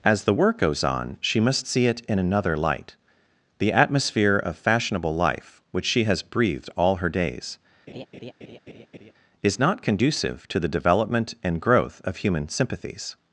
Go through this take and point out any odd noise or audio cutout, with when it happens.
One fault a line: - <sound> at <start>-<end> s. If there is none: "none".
- laugh at 7.9-9.1 s